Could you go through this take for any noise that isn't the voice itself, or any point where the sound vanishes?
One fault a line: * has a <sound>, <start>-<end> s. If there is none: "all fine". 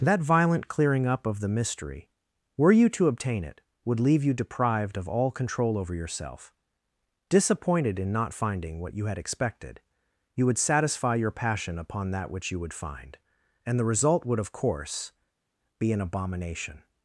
all fine